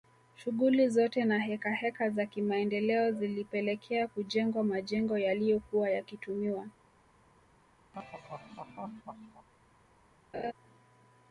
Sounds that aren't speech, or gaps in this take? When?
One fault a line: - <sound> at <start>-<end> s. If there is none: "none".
- laugh at 7.9-9.5 s
- laugh at 10.3-10.5 s